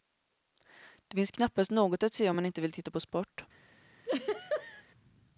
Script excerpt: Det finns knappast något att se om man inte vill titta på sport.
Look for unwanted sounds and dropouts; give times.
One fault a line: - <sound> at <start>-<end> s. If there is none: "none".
- laugh at 4.0-4.8 s